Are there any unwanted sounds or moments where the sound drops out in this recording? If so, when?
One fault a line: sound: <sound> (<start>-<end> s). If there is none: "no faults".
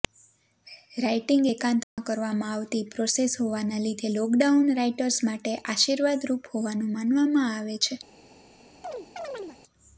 sound: dropout (1.8-2.0 s)
sound: chirp (8.8-9.6 s)